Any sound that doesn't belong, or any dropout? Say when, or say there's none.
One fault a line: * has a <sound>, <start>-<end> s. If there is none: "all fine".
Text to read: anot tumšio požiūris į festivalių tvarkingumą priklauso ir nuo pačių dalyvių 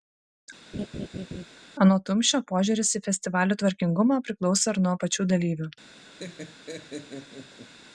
* has a laugh, 0.7-1.5 s
* has a laugh, 6.2-7.7 s